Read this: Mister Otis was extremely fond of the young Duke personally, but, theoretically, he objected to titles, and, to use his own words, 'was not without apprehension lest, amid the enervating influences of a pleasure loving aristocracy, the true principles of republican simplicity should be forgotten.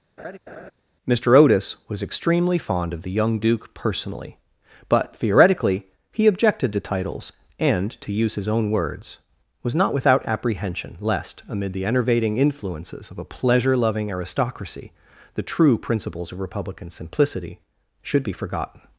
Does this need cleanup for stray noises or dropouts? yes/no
yes